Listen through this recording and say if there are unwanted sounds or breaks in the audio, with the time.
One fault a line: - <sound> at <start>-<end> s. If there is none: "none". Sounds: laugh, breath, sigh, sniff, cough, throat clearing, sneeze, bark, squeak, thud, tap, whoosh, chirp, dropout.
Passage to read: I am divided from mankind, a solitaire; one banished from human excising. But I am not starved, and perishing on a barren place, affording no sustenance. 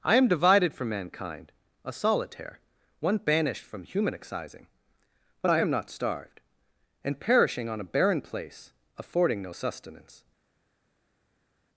none